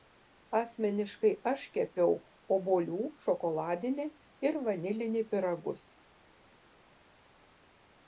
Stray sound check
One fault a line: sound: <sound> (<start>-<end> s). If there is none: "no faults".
no faults